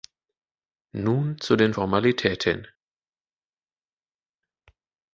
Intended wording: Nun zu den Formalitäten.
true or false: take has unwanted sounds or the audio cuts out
false